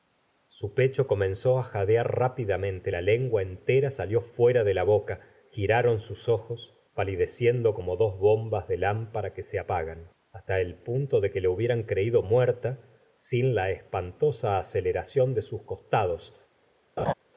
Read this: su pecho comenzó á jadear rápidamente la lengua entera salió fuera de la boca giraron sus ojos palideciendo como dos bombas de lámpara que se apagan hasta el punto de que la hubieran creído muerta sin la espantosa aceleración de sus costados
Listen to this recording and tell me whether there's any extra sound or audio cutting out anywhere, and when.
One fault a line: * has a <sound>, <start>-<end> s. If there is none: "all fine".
* has a laugh, 17.0-17.1 s